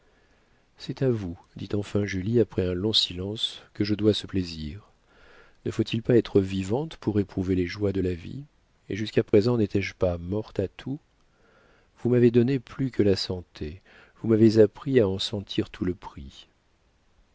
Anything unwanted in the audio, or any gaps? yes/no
yes